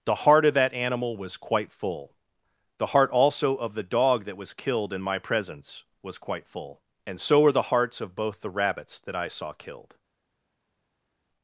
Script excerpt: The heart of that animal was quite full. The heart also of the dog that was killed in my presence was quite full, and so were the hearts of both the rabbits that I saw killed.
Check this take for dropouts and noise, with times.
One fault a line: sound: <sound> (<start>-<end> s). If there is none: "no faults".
no faults